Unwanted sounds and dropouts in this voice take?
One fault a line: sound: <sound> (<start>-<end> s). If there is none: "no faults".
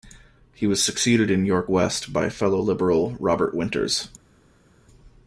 no faults